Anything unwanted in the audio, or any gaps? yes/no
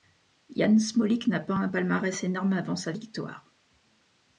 no